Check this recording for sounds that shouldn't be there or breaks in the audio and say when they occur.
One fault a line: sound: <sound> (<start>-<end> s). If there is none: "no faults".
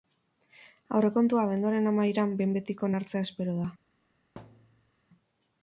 sound: thud (4.4-4.9 s)